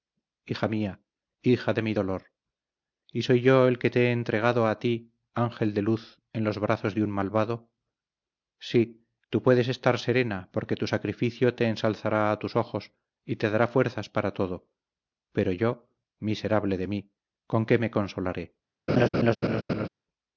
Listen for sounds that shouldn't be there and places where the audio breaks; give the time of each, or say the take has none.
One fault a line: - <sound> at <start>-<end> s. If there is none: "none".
- laugh at 18.9-19.9 s